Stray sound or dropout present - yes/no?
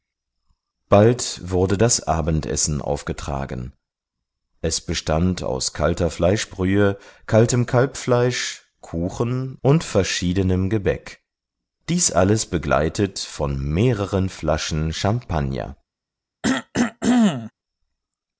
yes